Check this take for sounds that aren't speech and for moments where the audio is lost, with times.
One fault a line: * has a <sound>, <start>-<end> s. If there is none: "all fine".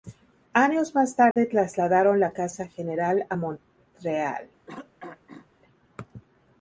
* has a dropout, 1.3-1.4 s
* has a throat clearing, 4.7-5.5 s